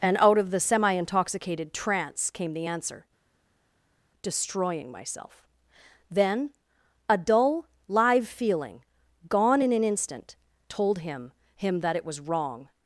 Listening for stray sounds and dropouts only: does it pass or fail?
pass